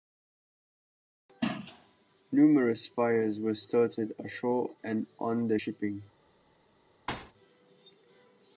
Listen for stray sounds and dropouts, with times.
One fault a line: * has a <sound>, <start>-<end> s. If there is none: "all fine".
* has a thud, 7.1-7.3 s